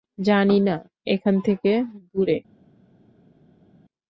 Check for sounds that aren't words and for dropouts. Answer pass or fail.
pass